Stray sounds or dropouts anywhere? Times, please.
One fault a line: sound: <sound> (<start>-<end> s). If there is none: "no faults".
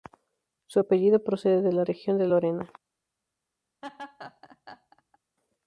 sound: laugh (3.8-5.2 s)